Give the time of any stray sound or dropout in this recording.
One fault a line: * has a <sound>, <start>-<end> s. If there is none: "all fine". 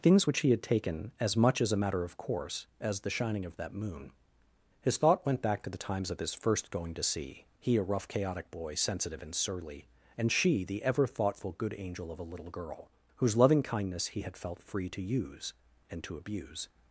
all fine